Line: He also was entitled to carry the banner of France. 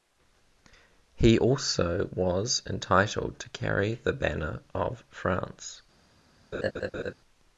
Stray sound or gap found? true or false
true